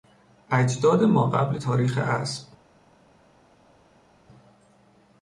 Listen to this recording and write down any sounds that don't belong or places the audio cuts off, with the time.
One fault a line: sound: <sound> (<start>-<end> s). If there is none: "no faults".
no faults